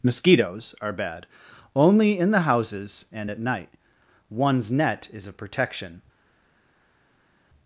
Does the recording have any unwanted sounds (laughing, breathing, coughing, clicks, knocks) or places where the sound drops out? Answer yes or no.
no